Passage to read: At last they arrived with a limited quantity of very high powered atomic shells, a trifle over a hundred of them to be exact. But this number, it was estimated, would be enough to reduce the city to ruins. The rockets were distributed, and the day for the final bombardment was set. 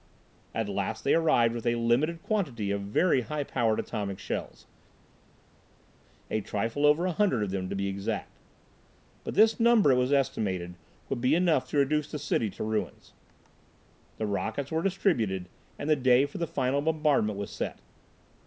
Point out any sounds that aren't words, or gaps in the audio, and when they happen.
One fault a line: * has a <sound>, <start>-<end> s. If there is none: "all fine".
all fine